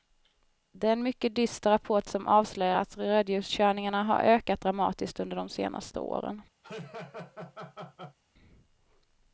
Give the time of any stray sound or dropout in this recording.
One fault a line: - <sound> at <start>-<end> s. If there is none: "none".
- laugh at 6.6-8.2 s